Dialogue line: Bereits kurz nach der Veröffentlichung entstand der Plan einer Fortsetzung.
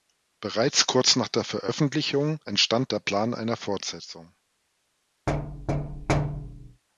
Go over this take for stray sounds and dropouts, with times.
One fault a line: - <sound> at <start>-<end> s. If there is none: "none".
- thud at 5.3-6.8 s